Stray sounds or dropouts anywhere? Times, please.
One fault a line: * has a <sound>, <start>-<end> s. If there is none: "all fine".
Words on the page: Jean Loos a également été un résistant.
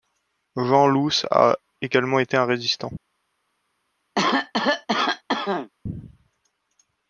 * has a cough, 4.2-5.7 s